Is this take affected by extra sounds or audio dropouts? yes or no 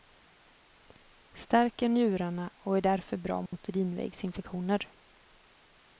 yes